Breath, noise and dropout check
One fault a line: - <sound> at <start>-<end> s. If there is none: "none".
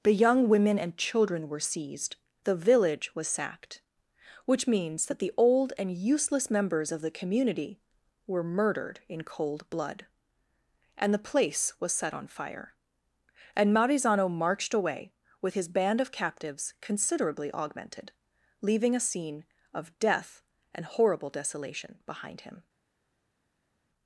none